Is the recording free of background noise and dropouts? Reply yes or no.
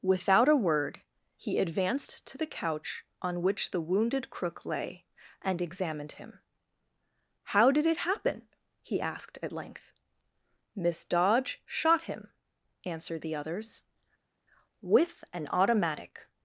yes